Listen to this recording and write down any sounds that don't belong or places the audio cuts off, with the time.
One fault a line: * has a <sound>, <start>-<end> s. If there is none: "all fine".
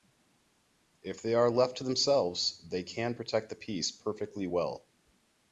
all fine